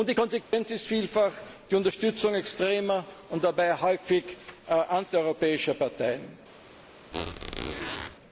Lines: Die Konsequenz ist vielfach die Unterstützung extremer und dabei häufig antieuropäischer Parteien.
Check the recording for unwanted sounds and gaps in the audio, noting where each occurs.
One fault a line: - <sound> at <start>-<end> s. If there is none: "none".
- dropout at 0.4-0.5 s
- squeak at 7.1-8.2 s